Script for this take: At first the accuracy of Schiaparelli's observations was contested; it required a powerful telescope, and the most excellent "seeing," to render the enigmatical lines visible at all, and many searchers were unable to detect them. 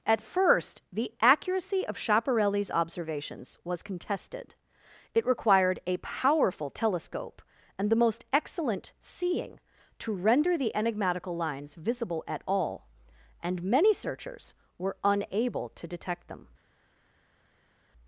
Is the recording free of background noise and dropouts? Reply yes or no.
yes